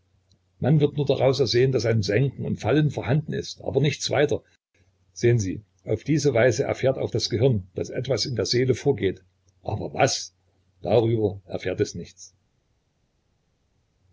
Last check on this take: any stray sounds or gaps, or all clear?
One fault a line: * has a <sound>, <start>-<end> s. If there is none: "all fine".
all fine